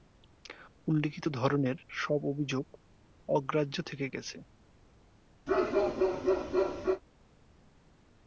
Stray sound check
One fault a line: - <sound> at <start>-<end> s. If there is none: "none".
- bark at 5.5-7.0 s